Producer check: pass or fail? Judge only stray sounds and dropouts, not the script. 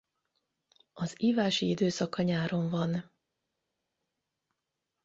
pass